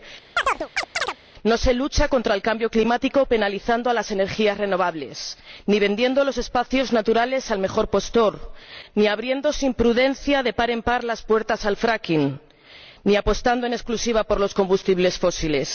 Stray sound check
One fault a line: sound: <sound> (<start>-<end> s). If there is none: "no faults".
sound: chirp (0.4-1.2 s)